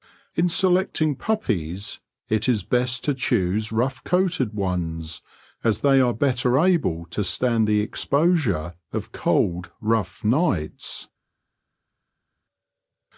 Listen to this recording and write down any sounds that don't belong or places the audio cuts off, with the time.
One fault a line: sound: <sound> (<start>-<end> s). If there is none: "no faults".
no faults